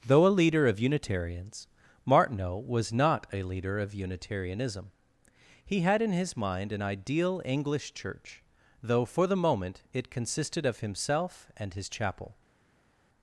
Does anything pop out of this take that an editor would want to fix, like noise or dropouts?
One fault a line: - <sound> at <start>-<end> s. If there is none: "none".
none